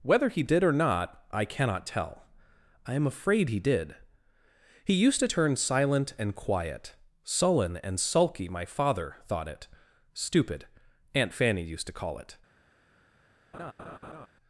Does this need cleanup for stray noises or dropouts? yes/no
yes